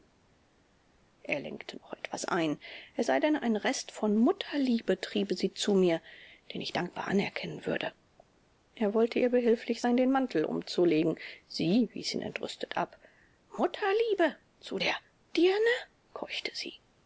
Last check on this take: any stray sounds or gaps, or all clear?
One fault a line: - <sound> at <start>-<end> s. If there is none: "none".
none